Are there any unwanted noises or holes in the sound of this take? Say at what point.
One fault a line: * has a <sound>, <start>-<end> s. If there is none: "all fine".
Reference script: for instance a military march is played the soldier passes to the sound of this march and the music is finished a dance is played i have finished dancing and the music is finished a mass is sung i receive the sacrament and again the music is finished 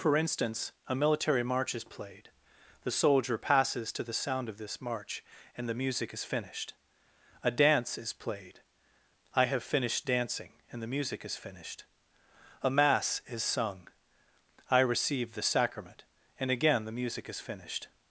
all fine